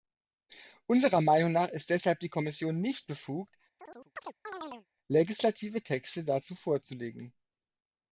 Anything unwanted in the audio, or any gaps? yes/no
yes